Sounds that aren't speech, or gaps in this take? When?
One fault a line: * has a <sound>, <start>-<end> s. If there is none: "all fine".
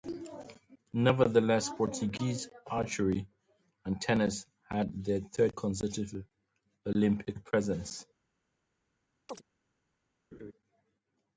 * has a chirp, 9.3-9.4 s
* has a laugh, 10.3-10.5 s